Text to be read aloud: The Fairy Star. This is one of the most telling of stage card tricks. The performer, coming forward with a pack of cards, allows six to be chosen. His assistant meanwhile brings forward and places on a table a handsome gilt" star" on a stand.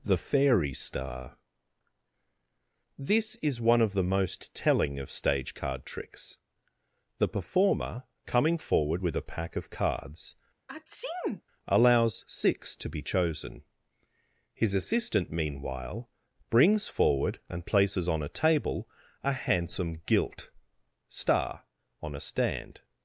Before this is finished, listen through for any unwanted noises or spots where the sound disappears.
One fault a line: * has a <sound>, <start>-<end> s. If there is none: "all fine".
* has a sneeze, 10.7-11.4 s